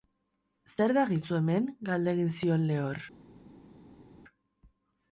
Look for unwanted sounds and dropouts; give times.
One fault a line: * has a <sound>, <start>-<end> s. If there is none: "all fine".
all fine